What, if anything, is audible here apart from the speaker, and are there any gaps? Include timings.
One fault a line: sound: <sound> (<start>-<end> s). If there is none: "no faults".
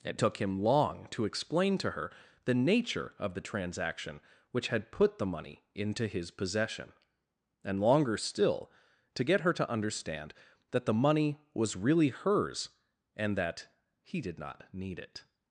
no faults